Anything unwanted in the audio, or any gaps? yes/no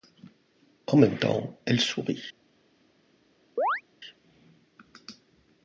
yes